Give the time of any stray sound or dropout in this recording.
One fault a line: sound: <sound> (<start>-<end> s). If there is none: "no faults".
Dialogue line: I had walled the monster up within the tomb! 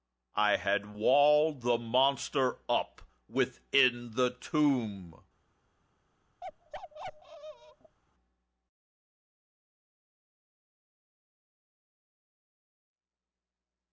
sound: bark (6.4-8.0 s)